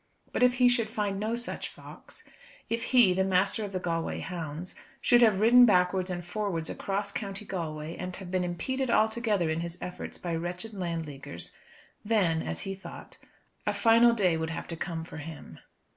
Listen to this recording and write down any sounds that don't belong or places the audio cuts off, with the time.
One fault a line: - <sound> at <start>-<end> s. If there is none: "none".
none